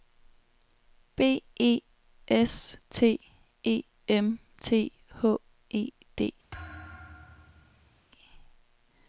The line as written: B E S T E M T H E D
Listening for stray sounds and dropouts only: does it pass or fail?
fail